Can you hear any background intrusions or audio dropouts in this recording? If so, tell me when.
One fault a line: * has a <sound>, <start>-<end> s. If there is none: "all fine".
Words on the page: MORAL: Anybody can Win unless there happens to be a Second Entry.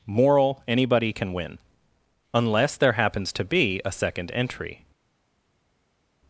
all fine